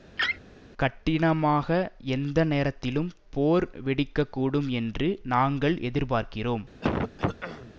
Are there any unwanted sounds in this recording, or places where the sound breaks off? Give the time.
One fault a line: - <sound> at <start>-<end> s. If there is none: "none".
- laugh at 0.2-0.4 s
- throat clearing at 6.8-7.7 s